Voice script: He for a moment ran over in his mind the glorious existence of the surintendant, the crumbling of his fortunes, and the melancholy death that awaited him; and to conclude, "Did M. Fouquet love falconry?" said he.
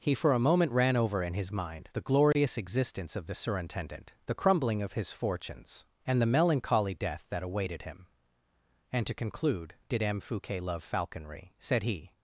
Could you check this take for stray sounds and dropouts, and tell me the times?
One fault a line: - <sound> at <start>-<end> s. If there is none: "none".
none